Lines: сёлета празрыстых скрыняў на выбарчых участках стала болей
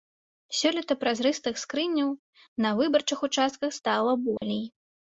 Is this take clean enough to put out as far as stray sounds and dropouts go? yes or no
no